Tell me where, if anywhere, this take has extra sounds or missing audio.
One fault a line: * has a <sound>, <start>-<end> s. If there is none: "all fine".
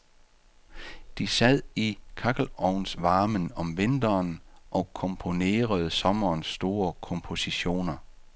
all fine